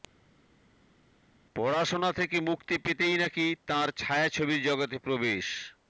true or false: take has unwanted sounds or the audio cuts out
false